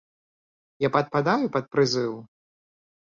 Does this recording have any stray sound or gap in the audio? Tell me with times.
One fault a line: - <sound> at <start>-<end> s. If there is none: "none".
none